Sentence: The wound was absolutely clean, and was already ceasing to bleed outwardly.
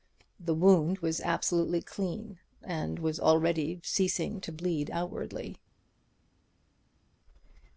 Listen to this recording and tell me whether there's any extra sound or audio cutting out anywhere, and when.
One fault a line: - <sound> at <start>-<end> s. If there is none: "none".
none